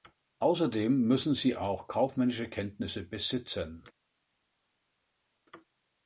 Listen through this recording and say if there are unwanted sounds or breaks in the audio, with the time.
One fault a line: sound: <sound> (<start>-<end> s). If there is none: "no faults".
no faults